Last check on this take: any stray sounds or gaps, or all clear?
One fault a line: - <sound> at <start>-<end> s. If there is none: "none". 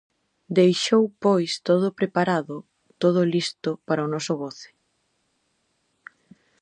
none